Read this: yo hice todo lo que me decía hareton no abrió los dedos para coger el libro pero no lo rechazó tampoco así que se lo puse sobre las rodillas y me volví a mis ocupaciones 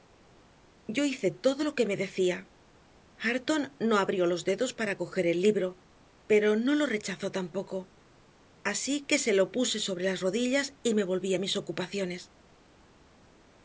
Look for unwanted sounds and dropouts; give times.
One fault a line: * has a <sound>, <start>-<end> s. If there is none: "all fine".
all fine